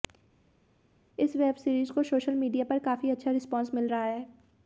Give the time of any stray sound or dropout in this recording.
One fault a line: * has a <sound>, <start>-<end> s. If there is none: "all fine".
all fine